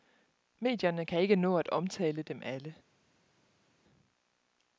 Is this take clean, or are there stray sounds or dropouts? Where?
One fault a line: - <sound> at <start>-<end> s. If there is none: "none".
none